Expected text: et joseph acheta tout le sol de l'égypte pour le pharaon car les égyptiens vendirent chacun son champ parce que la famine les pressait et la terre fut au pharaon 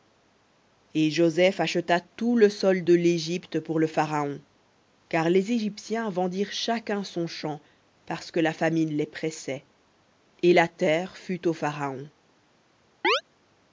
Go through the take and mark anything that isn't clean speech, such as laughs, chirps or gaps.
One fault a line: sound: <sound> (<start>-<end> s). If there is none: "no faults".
sound: chirp (13.0-13.2 s)